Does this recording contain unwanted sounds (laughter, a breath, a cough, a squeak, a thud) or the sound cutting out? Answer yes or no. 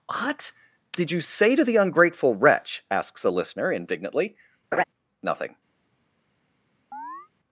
yes